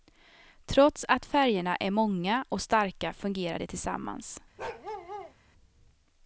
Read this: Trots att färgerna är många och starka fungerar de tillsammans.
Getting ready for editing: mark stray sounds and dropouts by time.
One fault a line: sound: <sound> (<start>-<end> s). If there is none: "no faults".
sound: bark (4.6-5.3 s)